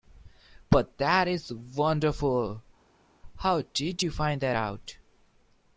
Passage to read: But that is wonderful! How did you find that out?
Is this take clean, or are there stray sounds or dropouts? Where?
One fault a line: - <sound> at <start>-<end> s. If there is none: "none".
none